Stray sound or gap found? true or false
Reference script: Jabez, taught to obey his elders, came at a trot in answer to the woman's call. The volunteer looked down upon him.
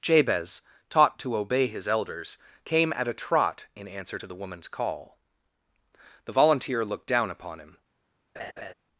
true